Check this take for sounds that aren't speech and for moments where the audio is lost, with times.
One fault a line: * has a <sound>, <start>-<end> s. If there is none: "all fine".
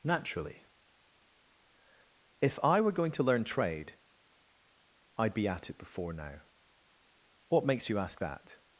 all fine